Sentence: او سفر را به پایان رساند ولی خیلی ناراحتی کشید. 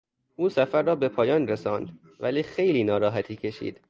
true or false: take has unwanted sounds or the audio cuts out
false